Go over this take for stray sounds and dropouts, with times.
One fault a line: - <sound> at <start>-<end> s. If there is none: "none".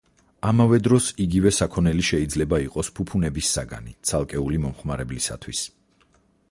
none